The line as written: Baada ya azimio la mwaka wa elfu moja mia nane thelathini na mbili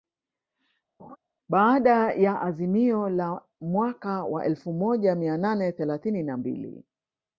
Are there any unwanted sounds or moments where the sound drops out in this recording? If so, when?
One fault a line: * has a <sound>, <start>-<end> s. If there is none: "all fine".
* has a laugh, 1.0-1.2 s